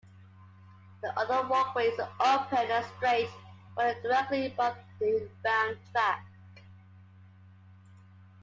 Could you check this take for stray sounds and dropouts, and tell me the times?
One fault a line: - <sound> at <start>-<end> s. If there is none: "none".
none